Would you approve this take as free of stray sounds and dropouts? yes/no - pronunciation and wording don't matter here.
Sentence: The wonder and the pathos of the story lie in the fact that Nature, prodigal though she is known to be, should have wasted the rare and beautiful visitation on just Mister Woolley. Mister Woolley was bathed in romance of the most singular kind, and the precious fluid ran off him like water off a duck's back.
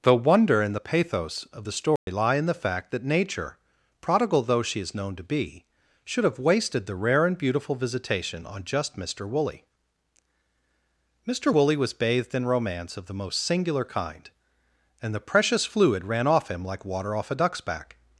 no